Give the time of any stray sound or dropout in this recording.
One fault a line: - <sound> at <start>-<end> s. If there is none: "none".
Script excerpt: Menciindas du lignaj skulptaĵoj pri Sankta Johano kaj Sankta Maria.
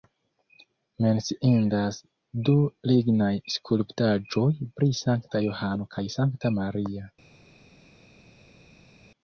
none